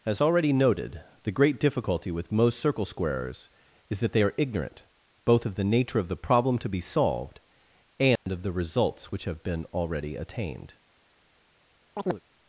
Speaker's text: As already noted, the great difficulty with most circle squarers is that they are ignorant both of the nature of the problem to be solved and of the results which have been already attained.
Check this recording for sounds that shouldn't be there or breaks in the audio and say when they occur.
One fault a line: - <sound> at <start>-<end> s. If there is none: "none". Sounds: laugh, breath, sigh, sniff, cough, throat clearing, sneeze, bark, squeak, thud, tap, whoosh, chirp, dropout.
- dropout at 8.2-8.3 s
- chirp at 12.0-12.2 s